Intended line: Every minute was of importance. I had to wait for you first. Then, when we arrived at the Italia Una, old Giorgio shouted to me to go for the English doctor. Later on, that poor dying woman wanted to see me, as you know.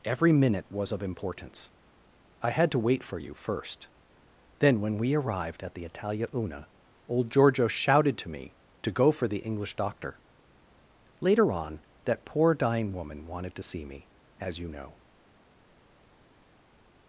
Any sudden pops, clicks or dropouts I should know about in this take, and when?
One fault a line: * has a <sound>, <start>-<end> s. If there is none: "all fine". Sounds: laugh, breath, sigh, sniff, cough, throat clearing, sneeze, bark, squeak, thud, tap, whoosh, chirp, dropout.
all fine